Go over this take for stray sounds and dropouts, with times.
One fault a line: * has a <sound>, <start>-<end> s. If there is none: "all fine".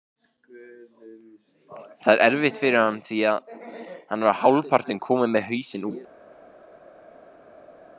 all fine